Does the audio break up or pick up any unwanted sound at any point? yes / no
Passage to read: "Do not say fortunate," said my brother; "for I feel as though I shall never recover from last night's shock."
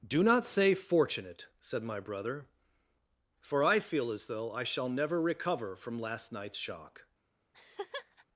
yes